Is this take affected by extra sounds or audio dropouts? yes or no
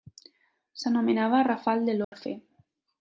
yes